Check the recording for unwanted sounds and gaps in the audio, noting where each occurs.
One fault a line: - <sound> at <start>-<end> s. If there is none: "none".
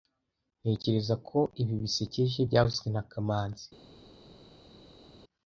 none